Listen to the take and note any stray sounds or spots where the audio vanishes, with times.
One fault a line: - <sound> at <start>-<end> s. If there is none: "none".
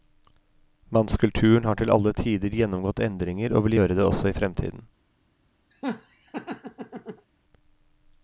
- laugh at 5.7-7.3 s